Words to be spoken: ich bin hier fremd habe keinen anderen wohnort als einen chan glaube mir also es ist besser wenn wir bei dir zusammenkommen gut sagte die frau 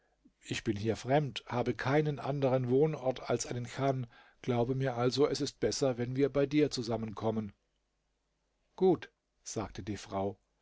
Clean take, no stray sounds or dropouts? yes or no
yes